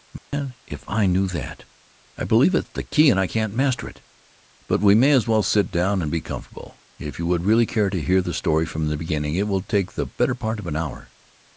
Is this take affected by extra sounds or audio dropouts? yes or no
yes